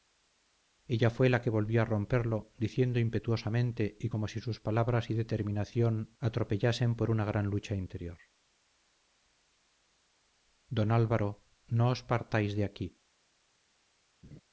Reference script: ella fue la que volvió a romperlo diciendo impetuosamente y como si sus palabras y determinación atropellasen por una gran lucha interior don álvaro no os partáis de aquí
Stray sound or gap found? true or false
true